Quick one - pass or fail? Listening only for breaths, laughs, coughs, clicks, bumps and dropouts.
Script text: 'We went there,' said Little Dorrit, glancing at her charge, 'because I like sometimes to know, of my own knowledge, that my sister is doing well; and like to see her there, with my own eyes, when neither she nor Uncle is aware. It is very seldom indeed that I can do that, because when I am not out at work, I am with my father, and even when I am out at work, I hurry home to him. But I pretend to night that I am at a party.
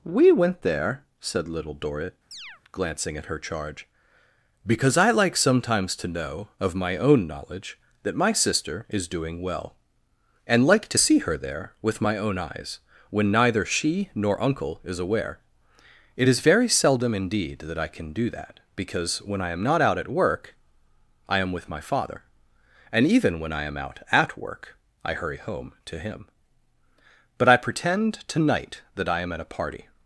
fail